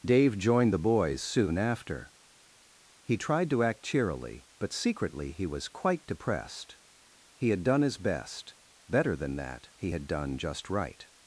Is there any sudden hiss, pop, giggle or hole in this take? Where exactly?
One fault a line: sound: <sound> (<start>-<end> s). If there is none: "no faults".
no faults